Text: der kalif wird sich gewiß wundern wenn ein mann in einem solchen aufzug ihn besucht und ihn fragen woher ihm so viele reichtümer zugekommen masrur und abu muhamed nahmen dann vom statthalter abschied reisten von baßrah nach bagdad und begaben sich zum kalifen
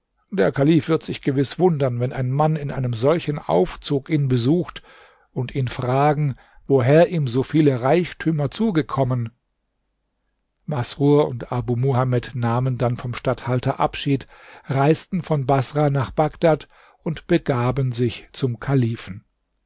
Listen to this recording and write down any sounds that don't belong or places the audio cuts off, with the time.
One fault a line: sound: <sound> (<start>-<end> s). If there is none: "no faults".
no faults